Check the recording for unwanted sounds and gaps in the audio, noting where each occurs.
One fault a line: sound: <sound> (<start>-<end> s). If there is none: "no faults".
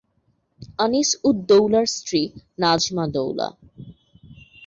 no faults